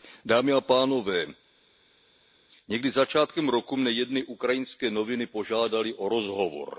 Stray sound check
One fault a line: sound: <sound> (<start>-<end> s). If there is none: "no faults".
no faults